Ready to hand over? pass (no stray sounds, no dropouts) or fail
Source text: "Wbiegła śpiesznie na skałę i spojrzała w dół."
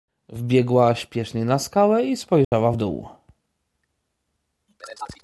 fail